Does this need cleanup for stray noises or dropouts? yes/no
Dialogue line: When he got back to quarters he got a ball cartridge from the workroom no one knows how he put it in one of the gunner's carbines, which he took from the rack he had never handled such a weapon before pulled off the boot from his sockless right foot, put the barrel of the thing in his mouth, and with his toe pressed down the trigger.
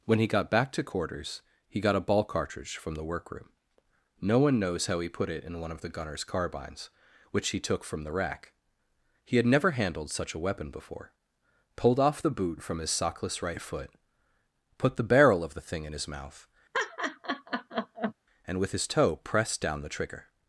yes